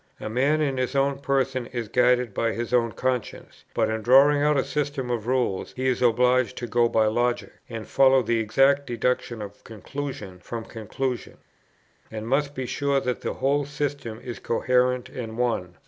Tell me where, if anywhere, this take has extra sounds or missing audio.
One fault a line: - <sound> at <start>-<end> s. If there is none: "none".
none